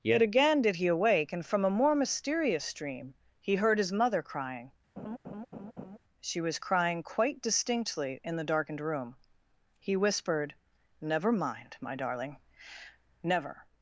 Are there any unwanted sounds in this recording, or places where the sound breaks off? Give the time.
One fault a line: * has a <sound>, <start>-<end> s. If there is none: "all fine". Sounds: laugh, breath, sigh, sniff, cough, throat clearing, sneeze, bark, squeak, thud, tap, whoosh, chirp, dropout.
* has a laugh, 5.0-6.0 s